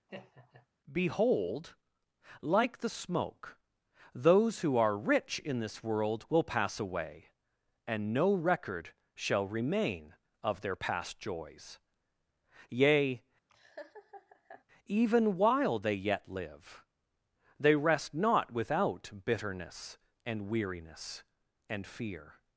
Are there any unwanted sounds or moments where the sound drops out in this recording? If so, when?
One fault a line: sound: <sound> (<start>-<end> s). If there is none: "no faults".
sound: laugh (0.1-0.7 s)
sound: laugh (13.5-14.6 s)